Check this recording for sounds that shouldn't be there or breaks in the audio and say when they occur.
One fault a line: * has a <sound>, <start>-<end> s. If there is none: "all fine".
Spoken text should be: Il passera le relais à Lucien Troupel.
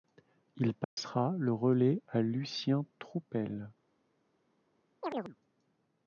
* has a dropout, 0.8-1.0 s
* has a chirp, 5.0-5.4 s